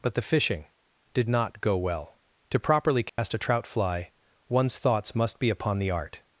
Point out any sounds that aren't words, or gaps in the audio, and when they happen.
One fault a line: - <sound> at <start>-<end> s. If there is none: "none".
- dropout at 3.1-3.2 s